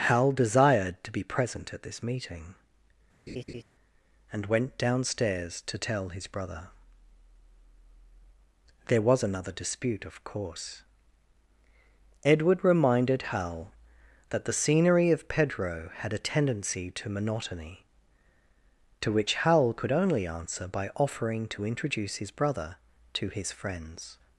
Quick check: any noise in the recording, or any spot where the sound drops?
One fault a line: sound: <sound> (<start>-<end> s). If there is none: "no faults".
sound: laugh (3.3-3.6 s)